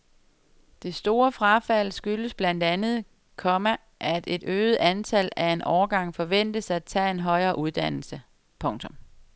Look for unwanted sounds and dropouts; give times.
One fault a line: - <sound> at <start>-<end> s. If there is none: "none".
none